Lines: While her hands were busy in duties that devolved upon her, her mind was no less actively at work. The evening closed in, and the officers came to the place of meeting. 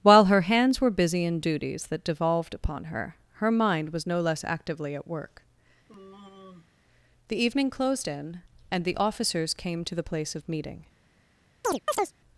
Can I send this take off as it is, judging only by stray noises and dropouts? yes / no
no